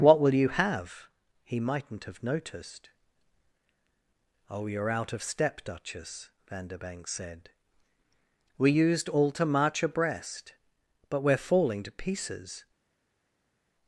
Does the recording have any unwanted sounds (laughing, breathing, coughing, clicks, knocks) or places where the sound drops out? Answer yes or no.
no